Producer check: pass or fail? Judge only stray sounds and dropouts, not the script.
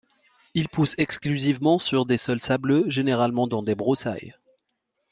pass